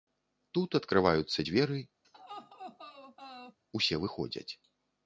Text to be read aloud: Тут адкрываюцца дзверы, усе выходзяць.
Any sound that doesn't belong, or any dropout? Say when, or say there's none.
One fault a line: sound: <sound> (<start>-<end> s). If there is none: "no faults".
sound: laugh (2.0-3.6 s)